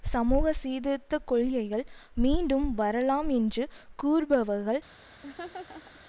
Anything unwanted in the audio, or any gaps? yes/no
yes